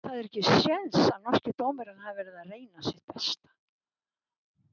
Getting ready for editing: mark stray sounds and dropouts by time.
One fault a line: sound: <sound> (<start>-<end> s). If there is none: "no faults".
no faults